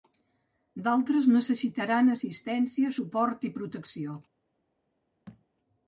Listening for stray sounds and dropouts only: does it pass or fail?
fail